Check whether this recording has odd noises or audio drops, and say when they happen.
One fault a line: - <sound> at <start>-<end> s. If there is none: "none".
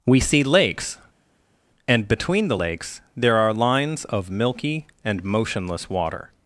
none